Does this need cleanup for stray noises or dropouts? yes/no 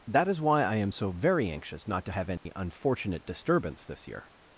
yes